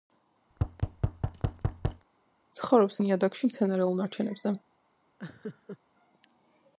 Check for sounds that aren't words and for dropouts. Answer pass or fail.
fail